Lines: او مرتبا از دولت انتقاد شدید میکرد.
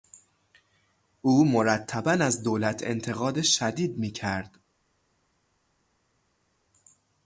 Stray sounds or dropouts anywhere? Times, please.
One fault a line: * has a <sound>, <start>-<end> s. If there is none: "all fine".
all fine